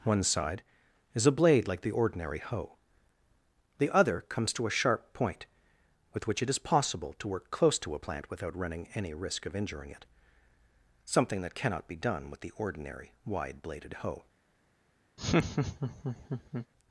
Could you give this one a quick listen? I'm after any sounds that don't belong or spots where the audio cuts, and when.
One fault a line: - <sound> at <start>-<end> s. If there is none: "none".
- laugh at 15.2-16.7 s